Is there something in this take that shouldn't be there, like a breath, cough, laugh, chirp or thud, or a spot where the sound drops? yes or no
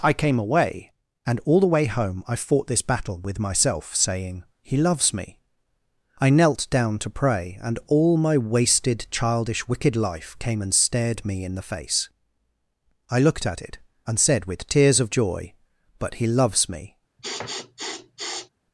yes